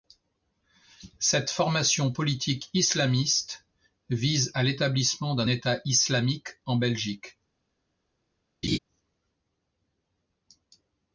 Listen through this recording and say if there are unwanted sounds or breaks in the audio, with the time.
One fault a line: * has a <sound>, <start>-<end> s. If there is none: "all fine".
* has a laugh, 8.6-8.8 s